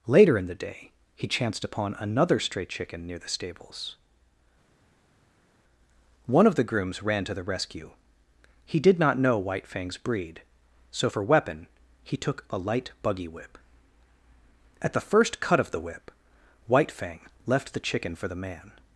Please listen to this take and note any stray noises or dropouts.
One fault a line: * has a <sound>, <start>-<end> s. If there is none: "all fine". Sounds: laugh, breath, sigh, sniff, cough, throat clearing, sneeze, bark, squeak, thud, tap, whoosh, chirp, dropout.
all fine